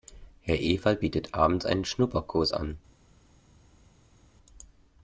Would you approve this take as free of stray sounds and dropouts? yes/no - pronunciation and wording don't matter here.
yes